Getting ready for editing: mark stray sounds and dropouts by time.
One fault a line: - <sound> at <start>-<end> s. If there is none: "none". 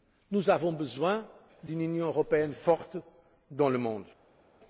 none